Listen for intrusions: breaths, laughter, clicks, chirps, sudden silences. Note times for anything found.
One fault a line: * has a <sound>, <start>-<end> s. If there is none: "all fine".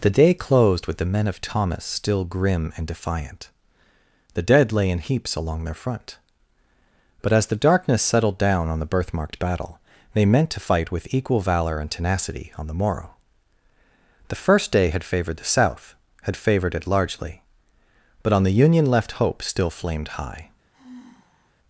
* has a sigh, 20.7-21.6 s